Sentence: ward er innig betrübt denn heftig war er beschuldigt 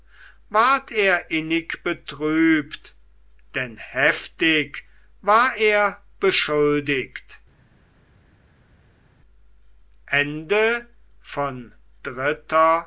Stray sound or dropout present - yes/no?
no